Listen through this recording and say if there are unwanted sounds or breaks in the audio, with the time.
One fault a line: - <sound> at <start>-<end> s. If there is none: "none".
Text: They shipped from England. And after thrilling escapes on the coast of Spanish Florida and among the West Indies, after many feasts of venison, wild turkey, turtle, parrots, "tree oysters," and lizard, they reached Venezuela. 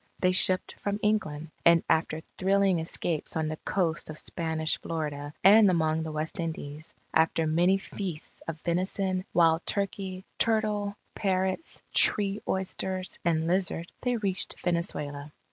none